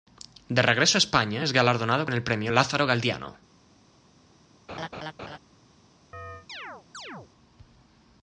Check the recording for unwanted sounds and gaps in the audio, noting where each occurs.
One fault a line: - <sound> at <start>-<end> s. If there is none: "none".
- laugh at 4.7-5.4 s
- chirp at 6.1-7.3 s